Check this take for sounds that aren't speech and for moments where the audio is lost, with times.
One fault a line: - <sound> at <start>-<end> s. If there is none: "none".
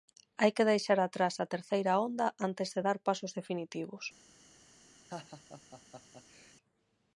- laugh at 5.1-6.5 s